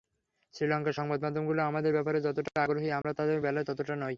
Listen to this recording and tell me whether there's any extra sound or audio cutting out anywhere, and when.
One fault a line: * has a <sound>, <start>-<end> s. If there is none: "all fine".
* has a dropout, 3.0-3.0 s